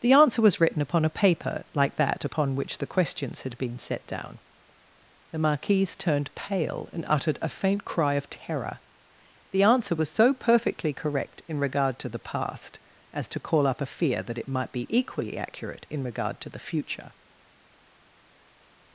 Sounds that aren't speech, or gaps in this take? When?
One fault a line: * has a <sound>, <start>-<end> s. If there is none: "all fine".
all fine